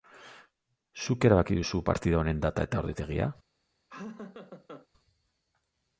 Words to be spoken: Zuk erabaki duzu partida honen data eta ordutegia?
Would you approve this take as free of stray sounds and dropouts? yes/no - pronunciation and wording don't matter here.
no